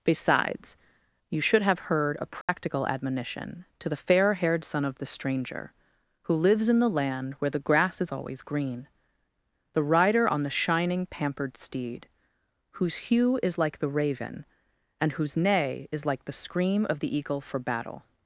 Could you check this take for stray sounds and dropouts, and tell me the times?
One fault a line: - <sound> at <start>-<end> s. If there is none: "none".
- dropout at 2.4-2.5 s